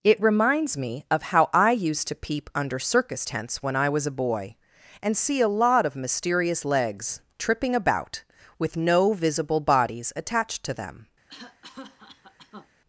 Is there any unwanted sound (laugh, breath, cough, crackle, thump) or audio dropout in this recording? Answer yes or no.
yes